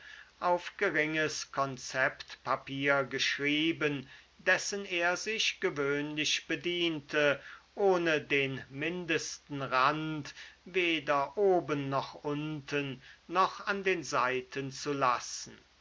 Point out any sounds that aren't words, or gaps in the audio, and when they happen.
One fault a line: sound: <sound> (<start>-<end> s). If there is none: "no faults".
no faults